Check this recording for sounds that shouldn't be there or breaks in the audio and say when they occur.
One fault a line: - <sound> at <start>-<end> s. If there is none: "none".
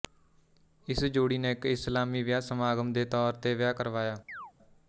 - chirp at 4.3-4.5 s